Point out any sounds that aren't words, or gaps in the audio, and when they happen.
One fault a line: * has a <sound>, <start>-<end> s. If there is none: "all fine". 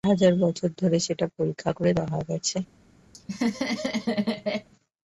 * has a laugh, 3.1-4.7 s